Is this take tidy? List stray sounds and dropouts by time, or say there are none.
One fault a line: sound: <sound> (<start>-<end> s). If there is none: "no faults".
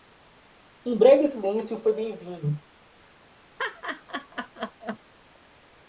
sound: laugh (3.6-5.0 s)